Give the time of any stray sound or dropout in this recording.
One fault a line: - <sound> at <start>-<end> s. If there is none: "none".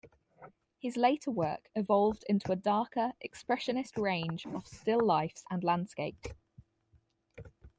none